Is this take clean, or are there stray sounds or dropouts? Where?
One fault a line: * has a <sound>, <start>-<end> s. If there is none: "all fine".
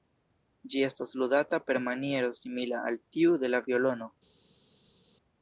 all fine